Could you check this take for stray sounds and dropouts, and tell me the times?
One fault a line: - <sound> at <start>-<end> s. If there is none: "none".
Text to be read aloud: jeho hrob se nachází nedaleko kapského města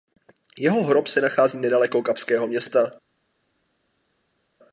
none